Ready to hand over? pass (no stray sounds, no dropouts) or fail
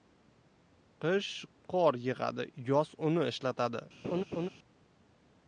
fail